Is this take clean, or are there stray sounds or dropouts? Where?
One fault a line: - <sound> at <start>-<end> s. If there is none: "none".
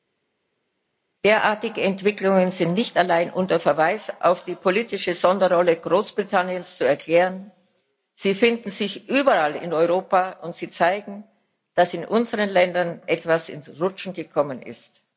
none